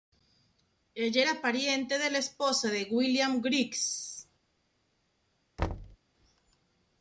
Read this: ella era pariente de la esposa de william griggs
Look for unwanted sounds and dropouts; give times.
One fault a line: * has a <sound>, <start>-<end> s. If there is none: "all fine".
* has a thud, 5.6-6.0 s